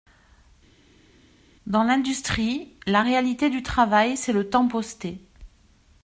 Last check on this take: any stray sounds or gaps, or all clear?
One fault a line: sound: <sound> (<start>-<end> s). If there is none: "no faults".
no faults